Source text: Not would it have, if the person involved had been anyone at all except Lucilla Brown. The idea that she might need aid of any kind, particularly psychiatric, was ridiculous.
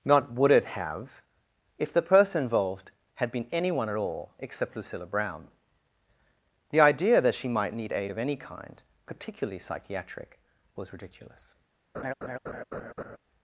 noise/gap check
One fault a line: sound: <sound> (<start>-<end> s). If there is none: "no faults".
sound: laugh (11.9-13.2 s)